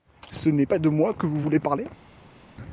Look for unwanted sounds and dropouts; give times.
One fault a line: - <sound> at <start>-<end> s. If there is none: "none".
none